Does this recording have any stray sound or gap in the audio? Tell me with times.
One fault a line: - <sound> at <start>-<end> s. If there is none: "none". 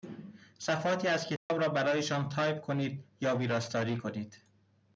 - dropout at 1.4-1.5 s